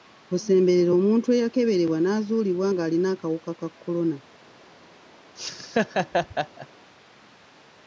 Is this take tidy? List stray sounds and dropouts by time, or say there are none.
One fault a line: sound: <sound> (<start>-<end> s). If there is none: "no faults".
sound: laugh (5.4-6.7 s)